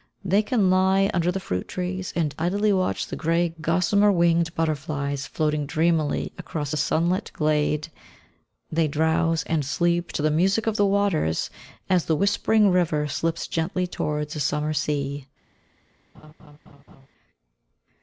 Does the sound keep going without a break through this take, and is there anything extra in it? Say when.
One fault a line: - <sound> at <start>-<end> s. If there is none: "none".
- laugh at 16.1-17.1 s